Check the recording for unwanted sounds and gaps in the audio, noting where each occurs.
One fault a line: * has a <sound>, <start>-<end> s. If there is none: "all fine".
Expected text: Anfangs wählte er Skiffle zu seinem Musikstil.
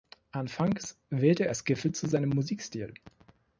all fine